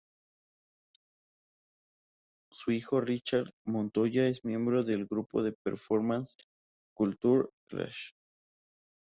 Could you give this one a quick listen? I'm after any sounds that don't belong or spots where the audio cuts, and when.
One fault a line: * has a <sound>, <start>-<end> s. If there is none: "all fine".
all fine